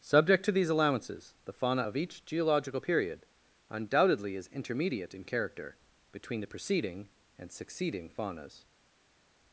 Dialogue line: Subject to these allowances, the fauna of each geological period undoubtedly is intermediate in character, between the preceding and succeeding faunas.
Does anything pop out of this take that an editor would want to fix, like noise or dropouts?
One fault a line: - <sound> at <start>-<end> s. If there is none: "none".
none